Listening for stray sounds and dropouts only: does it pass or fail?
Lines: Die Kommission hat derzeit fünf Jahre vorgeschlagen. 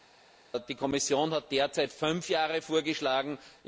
pass